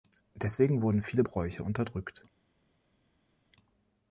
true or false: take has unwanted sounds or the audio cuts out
false